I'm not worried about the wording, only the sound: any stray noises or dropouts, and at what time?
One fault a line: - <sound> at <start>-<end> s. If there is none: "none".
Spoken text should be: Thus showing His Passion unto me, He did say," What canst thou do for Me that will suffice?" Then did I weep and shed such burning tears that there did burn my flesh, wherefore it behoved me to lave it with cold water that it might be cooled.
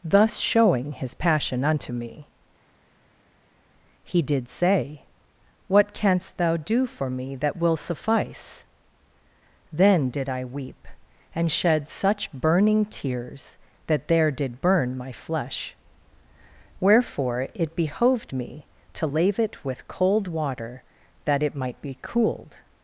none